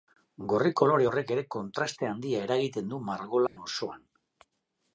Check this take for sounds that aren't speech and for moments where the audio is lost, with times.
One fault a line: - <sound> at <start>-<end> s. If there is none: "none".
- dropout at 3.5-3.6 s